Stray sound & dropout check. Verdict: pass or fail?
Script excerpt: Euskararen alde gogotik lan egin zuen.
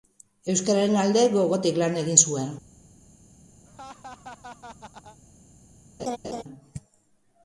fail